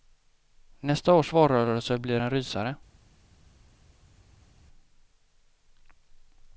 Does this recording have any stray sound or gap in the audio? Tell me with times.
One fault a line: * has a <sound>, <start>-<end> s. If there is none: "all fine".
all fine